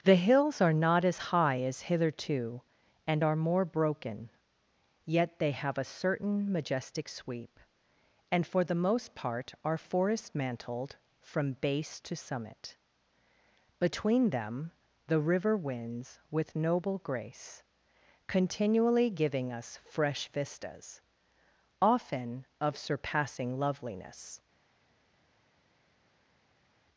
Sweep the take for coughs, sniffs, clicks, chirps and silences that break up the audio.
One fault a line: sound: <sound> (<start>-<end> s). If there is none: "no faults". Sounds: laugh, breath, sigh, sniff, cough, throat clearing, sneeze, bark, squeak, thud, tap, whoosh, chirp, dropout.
no faults